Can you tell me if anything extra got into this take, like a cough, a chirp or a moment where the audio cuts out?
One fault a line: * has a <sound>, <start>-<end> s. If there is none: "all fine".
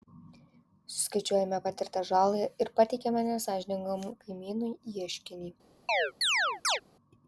* has a chirp, 5.9-6.8 s